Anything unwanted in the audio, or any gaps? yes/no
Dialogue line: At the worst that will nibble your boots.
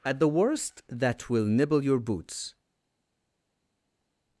no